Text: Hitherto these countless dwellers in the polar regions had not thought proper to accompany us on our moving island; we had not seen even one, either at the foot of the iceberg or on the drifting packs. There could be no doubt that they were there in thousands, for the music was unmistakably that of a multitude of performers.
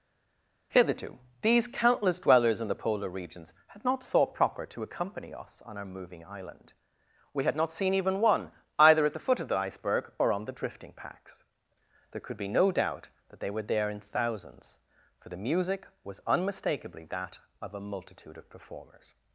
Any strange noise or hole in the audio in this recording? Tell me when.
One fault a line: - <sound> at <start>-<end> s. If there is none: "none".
none